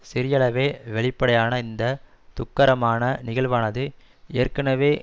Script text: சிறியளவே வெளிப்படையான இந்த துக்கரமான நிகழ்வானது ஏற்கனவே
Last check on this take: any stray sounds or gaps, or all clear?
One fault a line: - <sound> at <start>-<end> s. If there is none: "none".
none